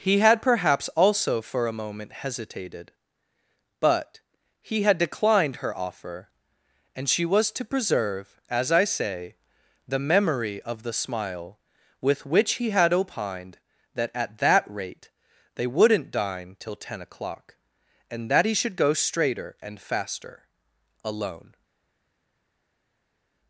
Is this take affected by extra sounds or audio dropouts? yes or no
no